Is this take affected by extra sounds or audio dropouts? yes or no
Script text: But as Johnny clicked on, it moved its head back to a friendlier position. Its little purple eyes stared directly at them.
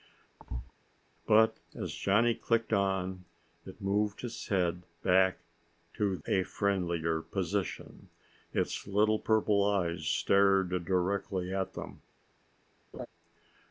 yes